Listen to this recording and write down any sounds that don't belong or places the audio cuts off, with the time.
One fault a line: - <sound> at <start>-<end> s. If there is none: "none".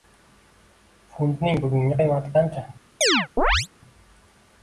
- chirp at 3.0-3.7 s